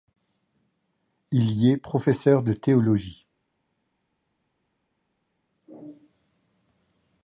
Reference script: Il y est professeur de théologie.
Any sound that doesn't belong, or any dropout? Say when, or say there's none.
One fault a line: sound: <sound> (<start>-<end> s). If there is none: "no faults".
no faults